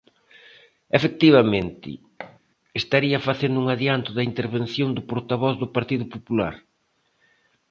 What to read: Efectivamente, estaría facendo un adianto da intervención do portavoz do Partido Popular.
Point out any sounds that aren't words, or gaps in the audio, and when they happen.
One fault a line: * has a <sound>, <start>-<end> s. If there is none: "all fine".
* has a thud, 2.2-2.4 s